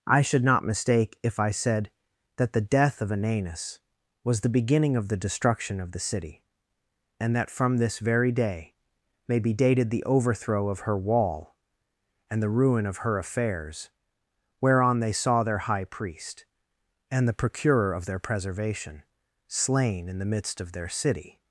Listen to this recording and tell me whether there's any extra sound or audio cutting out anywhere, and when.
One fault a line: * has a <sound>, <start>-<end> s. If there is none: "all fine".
all fine